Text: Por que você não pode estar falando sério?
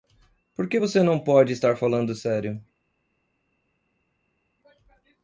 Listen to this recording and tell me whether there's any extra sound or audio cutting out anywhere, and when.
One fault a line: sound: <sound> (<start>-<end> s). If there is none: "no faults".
no faults